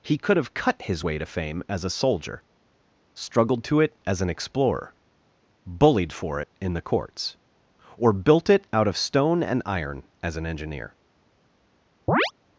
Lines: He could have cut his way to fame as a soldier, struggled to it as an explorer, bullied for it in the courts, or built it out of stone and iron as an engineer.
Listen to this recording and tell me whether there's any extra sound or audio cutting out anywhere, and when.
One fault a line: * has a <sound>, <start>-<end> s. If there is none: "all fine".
* has a chirp, 12.1-12.3 s